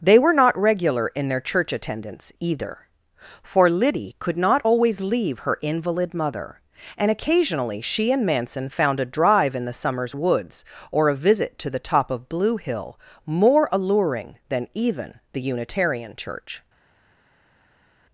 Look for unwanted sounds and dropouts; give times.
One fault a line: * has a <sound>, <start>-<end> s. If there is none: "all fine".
all fine